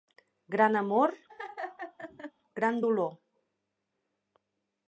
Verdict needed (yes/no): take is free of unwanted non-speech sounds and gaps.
no